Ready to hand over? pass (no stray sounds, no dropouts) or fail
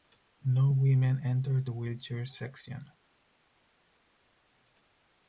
pass